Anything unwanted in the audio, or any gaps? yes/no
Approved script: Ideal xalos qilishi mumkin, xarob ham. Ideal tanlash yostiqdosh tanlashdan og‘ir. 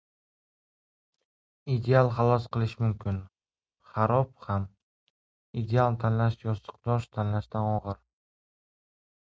no